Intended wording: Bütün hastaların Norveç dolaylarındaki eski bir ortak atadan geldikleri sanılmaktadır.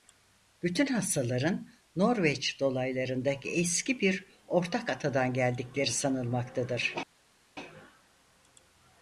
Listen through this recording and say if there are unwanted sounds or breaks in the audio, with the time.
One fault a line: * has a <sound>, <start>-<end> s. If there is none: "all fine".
all fine